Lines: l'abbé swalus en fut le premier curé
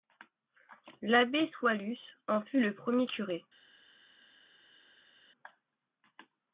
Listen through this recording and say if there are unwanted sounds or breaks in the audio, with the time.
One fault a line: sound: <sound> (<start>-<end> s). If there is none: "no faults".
no faults